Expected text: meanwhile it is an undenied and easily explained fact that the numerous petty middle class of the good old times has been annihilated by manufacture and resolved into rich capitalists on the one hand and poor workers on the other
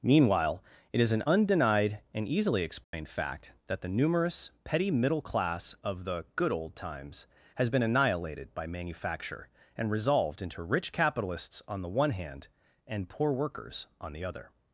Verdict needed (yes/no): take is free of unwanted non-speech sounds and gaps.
no